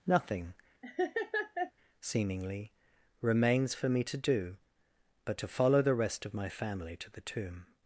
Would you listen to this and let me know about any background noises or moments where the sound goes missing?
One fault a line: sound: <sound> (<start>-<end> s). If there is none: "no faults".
sound: laugh (0.8-1.7 s)